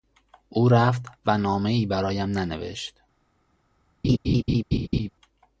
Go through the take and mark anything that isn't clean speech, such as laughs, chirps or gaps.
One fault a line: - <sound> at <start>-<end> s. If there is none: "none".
- laugh at 4.0-5.1 s